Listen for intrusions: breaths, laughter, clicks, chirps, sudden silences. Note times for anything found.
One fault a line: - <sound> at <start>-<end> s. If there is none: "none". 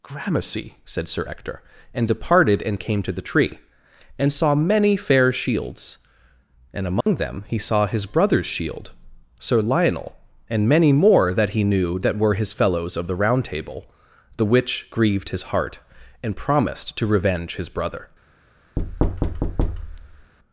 - dropout at 7.0-7.1 s
- thud at 18.8-20.3 s